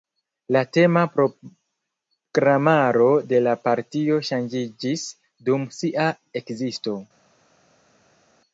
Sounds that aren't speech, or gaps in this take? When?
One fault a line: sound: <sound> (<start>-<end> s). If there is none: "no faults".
no faults